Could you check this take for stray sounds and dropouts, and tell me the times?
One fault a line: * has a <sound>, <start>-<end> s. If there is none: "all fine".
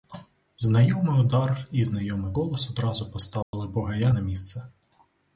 * has a dropout, 3.4-3.5 s